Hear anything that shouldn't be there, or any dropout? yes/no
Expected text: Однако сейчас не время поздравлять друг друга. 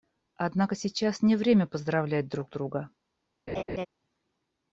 yes